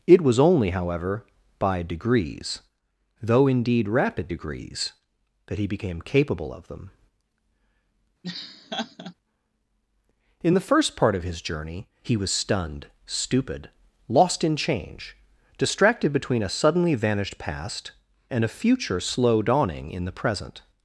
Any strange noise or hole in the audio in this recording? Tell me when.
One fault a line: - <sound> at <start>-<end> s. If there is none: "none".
- laugh at 8.2-9.1 s